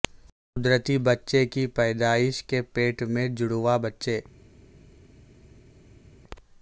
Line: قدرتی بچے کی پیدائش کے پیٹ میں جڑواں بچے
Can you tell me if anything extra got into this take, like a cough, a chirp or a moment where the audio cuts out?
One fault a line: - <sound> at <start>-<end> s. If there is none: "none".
none